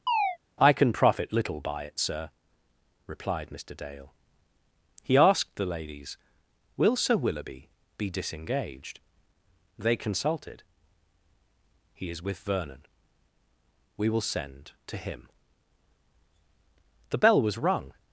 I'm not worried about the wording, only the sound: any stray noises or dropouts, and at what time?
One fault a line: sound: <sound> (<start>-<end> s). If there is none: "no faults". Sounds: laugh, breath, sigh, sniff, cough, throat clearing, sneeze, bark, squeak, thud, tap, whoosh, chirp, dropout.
sound: chirp (0.1-0.4 s)